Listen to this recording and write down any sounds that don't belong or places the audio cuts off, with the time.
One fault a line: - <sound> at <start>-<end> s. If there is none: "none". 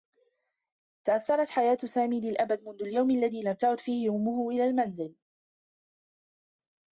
none